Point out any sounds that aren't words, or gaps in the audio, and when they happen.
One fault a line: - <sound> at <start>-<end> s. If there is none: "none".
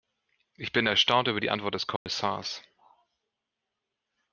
- dropout at 2.0-2.1 s